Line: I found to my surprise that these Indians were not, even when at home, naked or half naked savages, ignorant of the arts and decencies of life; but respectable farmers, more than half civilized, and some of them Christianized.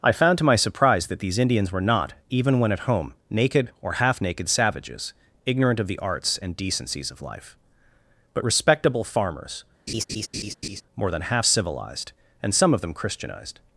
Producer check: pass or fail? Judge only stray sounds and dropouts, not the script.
fail